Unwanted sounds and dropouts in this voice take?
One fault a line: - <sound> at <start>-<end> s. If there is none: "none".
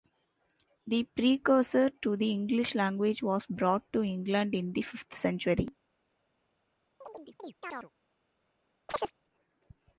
- chirp at 7.0-7.9 s
- chirp at 8.9-9.1 s